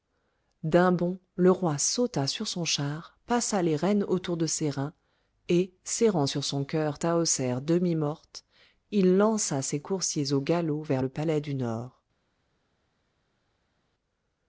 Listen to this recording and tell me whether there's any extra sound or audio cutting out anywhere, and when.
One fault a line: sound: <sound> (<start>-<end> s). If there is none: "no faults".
no faults